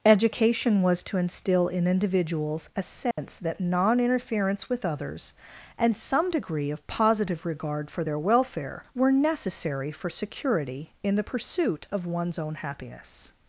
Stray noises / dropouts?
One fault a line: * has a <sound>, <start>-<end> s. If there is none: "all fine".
* has a dropout, 3.1-3.2 s